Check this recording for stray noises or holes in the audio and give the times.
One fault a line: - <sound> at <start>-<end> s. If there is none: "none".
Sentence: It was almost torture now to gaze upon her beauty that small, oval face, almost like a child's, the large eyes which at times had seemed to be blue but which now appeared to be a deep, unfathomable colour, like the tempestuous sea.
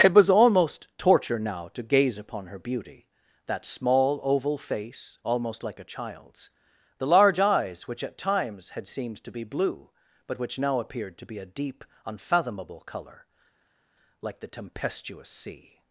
none